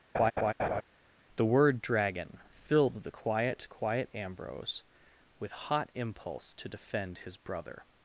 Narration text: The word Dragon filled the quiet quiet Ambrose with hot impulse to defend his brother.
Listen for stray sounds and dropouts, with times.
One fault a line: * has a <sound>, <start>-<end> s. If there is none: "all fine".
* has a laugh, 0.1-0.8 s